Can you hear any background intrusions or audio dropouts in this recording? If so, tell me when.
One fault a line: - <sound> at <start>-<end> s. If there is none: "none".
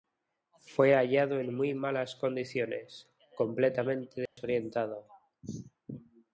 - dropout at 4.3-4.4 s